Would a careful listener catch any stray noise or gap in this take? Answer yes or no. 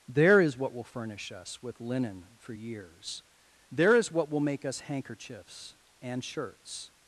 no